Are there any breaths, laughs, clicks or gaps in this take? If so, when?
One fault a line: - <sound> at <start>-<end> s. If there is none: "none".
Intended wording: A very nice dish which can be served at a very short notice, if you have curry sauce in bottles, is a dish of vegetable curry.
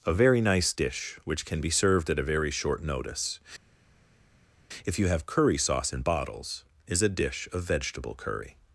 none